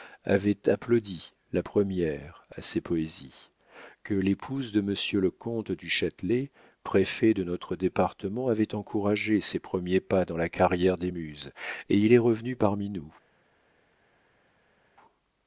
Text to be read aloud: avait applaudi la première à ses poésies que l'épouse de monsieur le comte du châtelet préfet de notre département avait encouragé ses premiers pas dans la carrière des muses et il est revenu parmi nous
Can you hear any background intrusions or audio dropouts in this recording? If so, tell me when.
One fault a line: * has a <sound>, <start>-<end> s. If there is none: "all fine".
all fine